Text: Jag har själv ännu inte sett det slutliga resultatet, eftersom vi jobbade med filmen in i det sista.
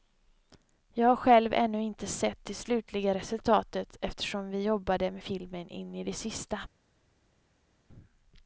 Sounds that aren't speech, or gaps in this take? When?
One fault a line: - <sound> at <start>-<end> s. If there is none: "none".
none